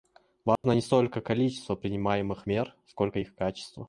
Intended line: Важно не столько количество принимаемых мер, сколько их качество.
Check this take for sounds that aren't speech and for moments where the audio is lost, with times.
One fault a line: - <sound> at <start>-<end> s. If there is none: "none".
- dropout at 0.6-0.6 s